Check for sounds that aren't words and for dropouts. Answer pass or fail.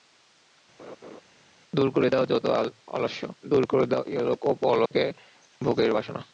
fail